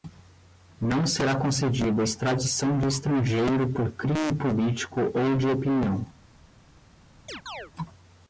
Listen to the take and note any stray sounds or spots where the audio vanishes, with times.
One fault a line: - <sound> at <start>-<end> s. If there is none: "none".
- chirp at 7.3-7.7 s